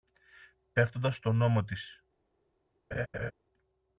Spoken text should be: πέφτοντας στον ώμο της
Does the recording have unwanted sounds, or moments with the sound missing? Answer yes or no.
yes